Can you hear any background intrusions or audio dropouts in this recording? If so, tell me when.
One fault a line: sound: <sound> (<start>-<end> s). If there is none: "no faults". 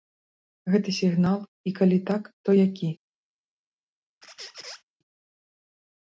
sound: squeak (4.2-4.8 s)